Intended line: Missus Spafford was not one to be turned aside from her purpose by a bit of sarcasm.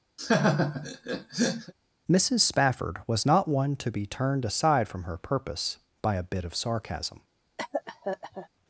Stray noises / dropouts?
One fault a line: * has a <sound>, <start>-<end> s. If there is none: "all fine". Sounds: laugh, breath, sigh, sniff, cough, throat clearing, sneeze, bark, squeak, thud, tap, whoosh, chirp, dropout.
* has a laugh, 0.2-1.7 s
* has a cough, 7.6-8.5 s